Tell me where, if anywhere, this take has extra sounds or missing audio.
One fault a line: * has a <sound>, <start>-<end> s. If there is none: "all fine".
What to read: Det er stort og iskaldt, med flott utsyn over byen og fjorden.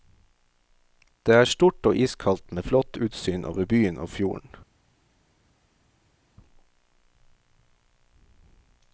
all fine